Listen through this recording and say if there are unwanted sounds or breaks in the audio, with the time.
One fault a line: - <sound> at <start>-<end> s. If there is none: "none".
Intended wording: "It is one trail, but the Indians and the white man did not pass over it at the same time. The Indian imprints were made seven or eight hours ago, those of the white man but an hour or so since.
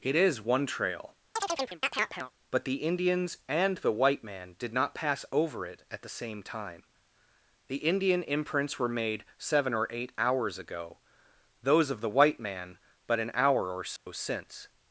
- chirp at 1.4-2.3 s
- dropout at 14.0-14.1 s